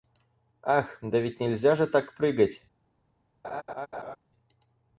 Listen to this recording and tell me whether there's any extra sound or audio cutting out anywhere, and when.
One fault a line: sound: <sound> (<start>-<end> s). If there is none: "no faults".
sound: laugh (3.4-4.2 s)